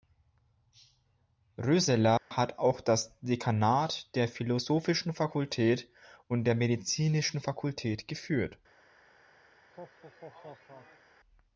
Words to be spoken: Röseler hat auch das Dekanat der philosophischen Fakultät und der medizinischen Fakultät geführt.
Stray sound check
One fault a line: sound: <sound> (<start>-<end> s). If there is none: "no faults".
sound: dropout (2.2-2.3 s)
sound: laugh (9.6-11.1 s)